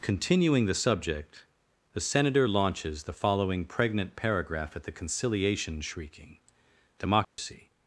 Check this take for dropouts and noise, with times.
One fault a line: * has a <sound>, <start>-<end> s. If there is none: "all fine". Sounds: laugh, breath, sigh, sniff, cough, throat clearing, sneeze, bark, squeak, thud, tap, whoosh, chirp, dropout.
* has a dropout, 7.2-7.4 s